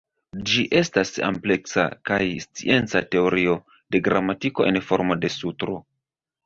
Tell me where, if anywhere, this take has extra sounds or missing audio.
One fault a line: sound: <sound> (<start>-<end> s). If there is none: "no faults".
no faults